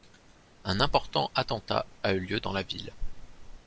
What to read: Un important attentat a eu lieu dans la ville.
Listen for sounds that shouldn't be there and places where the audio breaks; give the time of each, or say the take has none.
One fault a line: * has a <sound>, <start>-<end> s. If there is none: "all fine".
all fine